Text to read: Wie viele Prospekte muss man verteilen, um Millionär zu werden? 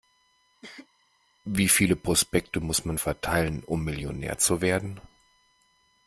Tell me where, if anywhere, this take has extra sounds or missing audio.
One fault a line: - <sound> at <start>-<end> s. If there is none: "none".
- cough at 0.6-0.9 s